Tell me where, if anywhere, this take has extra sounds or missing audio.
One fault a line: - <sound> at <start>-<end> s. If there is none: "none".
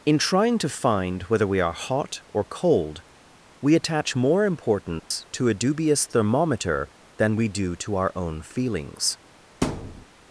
- dropout at 5.0-5.1 s
- thud at 9.6-10.1 s